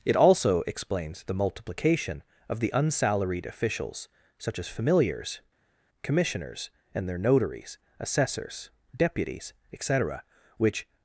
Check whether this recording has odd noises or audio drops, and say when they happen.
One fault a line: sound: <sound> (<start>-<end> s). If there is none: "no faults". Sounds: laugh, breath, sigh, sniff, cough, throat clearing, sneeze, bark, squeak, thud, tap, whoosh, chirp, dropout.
no faults